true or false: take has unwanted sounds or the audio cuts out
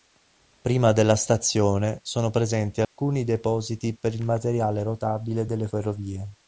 true